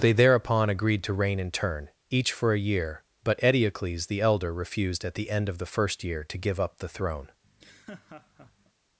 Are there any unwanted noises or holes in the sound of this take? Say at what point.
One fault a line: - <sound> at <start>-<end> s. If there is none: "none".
- laugh at 7.4-8.7 s